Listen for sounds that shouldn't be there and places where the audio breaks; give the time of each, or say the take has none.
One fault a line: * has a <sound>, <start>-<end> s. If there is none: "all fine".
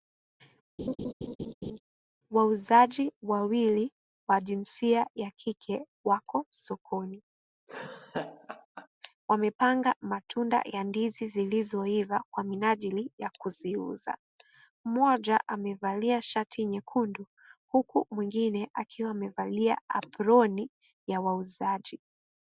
* has a laugh, 0.8-1.8 s
* has a laugh, 7.7-8.9 s